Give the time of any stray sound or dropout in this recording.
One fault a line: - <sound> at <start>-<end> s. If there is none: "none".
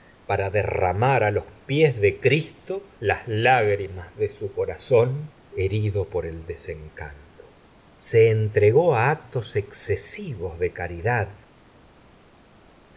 none